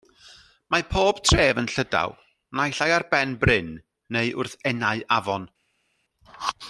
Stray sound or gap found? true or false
false